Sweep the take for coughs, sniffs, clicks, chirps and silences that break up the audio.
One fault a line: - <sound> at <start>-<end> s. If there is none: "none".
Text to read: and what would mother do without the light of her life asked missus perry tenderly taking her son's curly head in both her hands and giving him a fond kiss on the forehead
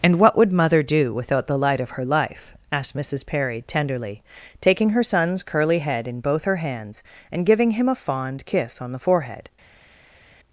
none